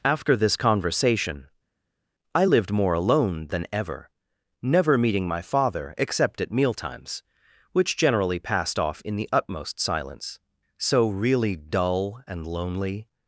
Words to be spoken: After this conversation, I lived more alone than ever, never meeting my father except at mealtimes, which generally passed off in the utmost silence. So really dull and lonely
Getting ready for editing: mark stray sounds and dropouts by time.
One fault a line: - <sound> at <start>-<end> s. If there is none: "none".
none